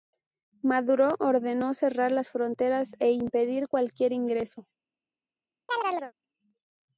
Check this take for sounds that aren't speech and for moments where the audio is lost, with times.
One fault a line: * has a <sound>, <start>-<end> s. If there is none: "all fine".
* has a chirp, 5.7-6.1 s